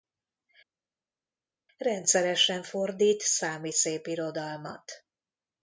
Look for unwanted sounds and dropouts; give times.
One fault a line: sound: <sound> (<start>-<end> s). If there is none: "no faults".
no faults